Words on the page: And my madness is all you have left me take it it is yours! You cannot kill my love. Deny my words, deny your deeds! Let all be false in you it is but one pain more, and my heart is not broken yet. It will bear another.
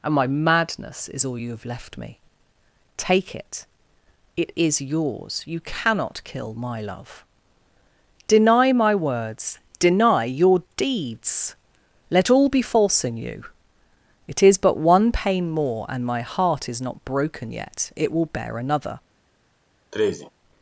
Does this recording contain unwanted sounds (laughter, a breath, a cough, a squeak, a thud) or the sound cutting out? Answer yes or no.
yes